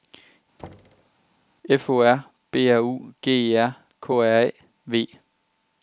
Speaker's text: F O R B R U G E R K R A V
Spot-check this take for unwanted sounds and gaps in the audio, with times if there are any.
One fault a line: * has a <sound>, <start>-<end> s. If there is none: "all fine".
* has a thud, 0.6-1.1 s